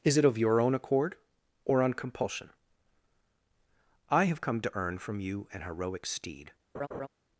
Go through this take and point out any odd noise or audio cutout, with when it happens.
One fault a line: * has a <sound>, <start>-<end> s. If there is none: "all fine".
* has a laugh, 6.7-7.1 s